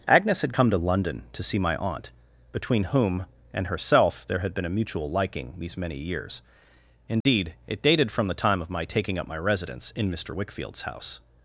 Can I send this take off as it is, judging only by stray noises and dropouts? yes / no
no